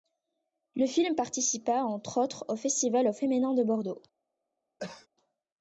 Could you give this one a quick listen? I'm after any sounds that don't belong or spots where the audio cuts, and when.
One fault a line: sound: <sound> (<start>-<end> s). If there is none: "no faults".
sound: cough (4.8-5.1 s)